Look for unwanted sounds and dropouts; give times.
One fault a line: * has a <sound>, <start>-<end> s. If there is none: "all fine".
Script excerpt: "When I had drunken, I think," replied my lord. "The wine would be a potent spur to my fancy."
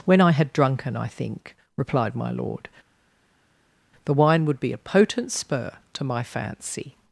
all fine